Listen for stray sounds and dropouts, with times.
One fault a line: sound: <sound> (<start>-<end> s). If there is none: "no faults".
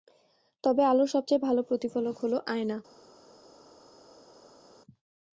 no faults